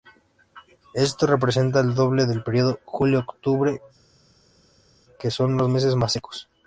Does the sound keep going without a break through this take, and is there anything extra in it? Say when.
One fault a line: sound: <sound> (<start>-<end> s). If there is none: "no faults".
no faults